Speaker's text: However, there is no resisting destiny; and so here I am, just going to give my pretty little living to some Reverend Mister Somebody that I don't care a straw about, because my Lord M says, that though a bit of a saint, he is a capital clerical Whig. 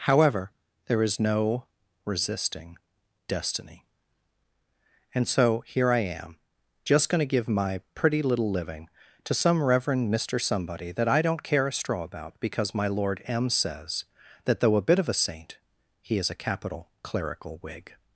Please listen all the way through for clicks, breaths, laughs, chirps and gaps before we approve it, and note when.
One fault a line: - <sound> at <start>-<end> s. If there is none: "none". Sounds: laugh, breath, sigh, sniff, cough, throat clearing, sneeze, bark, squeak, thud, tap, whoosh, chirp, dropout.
none